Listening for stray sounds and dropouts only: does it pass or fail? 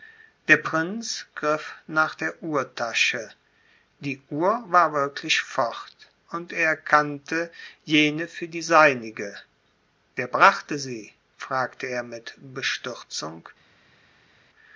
pass